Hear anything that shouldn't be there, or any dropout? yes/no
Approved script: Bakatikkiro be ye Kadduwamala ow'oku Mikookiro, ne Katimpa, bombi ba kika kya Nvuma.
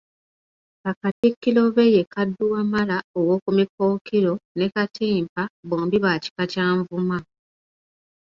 yes